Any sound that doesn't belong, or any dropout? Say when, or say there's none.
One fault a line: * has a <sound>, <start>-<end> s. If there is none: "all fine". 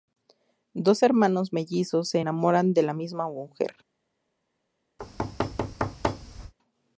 * has a thud, 5.0-6.5 s